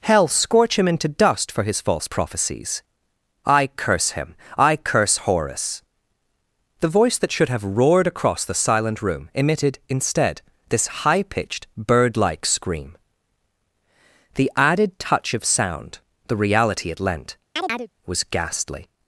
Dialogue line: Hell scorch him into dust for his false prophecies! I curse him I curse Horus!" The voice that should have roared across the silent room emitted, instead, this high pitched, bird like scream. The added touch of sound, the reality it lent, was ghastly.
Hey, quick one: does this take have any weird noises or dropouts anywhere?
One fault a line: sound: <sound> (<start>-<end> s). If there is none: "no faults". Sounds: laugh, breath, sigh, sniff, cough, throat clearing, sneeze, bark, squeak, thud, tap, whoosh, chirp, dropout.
sound: chirp (17.6-17.9 s)